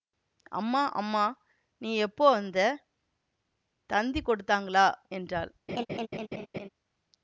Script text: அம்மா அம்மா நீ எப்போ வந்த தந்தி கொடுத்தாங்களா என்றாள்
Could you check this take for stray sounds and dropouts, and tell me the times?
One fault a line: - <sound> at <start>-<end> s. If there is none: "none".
- laugh at 5.7-6.7 s